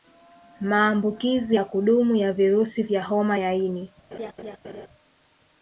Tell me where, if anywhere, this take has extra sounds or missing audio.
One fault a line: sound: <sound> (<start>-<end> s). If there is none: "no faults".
sound: laugh (4.1-4.9 s)